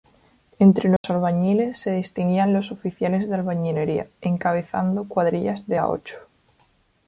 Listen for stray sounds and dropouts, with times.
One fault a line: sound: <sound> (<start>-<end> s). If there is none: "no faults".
sound: dropout (1.0-1.0 s)